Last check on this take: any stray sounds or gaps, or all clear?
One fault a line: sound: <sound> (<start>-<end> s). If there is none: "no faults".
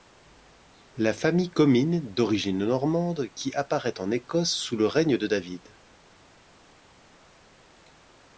no faults